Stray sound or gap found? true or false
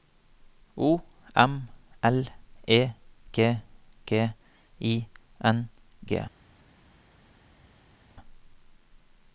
false